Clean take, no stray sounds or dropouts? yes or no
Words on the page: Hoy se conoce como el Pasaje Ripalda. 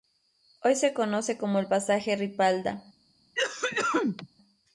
no